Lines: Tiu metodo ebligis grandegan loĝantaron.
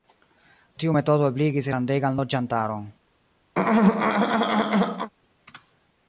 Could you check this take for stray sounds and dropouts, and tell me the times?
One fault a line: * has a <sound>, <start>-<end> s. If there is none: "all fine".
* has a throat clearing, 3.5-5.1 s